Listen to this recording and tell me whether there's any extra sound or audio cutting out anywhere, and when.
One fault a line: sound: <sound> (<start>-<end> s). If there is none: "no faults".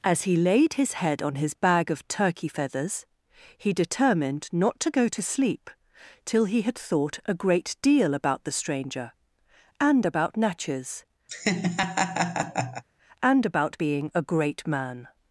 sound: laugh (11.3-12.8 s)